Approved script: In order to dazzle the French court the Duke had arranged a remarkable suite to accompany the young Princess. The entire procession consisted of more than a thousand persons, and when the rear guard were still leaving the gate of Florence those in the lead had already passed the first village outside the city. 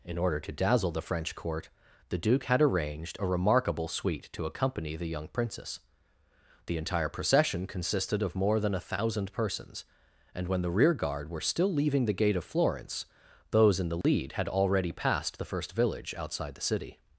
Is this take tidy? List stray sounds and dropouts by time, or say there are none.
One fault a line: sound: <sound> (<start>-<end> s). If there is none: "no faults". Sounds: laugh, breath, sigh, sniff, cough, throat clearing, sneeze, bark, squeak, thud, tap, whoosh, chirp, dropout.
sound: dropout (14.0-14.0 s)